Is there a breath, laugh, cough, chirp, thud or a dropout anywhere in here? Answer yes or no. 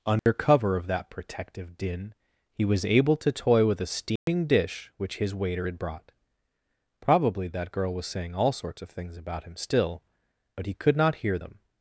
yes